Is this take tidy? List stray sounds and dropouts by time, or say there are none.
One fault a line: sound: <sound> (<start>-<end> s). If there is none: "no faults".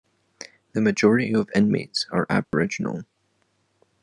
sound: dropout (2.4-2.5 s)